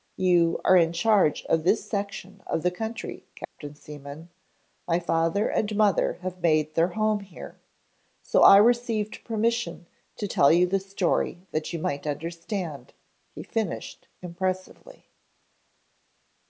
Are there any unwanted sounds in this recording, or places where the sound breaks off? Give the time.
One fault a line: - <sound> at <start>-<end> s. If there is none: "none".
- dropout at 3.4-3.6 s